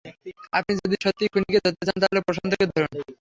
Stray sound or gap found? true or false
false